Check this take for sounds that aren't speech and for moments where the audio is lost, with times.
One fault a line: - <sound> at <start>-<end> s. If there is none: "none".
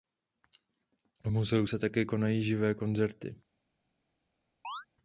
- chirp at 4.6-4.9 s